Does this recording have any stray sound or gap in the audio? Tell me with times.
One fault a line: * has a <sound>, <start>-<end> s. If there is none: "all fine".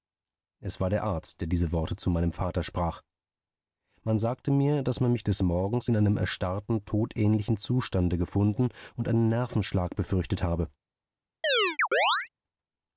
* has a chirp, 11.4-12.3 s